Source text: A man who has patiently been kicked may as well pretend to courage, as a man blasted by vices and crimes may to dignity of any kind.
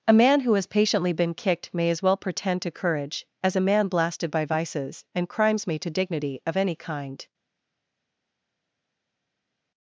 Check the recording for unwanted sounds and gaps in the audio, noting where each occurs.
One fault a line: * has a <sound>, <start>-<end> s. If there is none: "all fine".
all fine